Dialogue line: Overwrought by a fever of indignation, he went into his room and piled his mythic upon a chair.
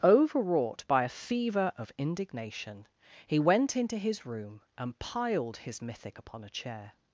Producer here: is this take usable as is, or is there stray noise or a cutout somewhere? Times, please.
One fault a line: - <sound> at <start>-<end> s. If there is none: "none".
none